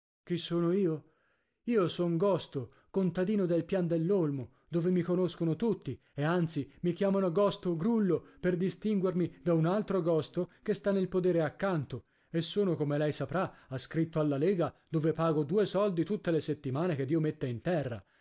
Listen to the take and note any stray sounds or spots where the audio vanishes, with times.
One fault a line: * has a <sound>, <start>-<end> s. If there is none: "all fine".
all fine